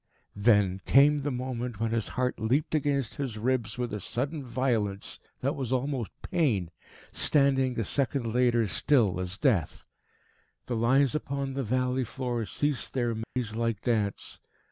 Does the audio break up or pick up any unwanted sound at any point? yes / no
yes